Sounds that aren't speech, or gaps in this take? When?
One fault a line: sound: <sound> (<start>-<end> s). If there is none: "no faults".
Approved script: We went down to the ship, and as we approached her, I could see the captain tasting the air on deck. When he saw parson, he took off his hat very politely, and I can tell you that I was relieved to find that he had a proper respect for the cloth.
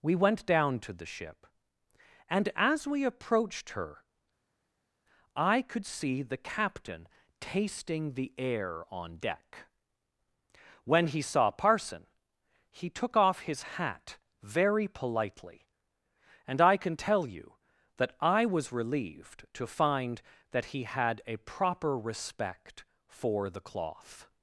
no faults